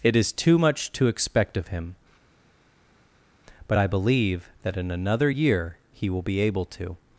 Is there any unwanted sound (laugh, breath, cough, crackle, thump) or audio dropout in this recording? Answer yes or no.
no